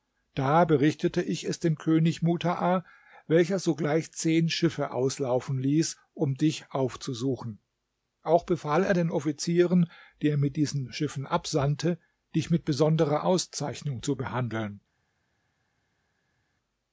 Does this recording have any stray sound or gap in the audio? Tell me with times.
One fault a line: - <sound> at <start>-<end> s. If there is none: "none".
none